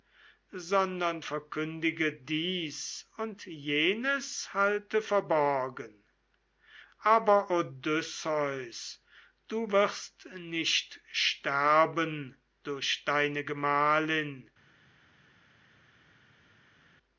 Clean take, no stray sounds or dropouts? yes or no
yes